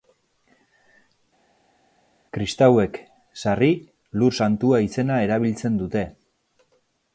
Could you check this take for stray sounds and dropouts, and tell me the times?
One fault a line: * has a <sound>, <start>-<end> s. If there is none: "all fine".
all fine